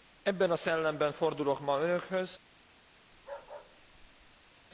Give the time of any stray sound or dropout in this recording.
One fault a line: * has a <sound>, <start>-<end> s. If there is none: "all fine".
* has a bark, 3.1-4.5 s